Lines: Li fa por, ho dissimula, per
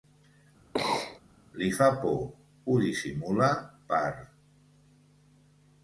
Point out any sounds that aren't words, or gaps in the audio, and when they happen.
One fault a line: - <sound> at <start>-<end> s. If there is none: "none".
- sneeze at 0.7-1.2 s